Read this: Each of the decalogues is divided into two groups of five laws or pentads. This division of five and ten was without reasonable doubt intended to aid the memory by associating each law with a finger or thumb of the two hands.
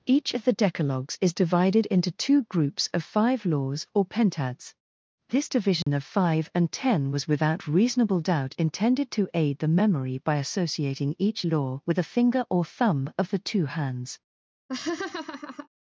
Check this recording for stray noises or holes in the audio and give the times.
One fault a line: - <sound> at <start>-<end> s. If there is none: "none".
- dropout at 5.8-5.9 s
- laugh at 14.7-15.7 s